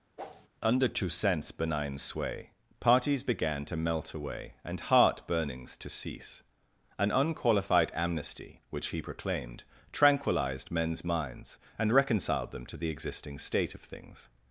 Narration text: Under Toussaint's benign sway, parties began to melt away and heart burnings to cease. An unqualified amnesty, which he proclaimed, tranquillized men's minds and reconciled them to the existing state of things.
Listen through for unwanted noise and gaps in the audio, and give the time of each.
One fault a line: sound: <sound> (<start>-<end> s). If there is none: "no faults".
sound: whoosh (0.2-0.5 s)